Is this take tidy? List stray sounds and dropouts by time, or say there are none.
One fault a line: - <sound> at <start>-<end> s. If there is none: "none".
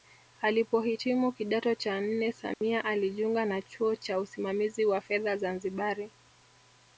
- dropout at 2.5-2.6 s